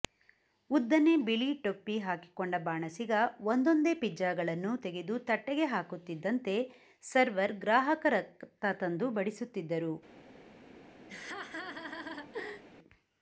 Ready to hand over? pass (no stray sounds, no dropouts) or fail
fail